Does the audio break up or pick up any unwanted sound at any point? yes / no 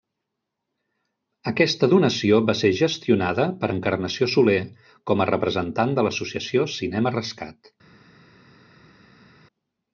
no